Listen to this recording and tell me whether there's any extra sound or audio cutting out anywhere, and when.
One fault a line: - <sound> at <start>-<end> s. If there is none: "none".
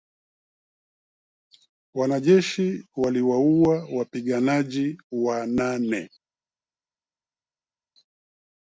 none